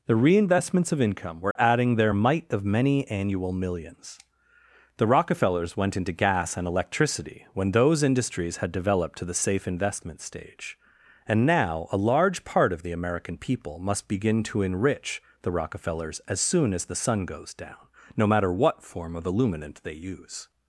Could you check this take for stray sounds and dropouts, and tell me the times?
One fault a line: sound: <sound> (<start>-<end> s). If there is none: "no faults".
sound: dropout (1.5-1.6 s)